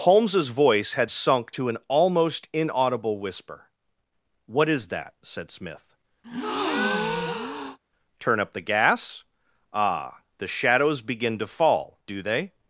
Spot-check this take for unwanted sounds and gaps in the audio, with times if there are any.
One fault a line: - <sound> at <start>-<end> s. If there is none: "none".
- breath at 6.2-7.8 s